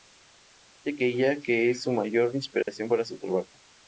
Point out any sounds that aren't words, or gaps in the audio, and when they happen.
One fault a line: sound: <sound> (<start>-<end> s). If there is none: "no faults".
sound: dropout (2.6-2.7 s)